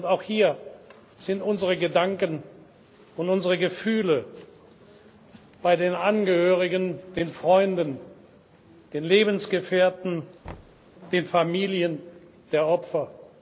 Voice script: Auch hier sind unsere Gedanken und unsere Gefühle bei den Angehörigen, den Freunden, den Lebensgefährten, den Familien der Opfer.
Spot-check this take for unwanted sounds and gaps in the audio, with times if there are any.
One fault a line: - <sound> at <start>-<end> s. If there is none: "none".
- thud at 10.4-10.8 s